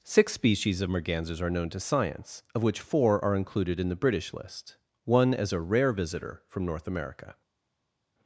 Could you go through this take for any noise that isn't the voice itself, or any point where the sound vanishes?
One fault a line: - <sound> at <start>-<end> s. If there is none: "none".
none